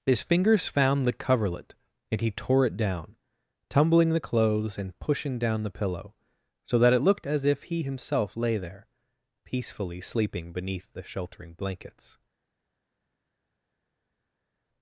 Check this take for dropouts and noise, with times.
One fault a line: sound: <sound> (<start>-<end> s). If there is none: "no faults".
no faults